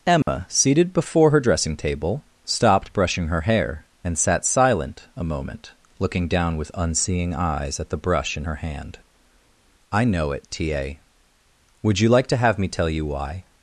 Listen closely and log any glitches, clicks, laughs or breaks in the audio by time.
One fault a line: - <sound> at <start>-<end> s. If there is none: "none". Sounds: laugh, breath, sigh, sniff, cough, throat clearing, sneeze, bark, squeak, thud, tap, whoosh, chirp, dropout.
- dropout at 0.2-0.3 s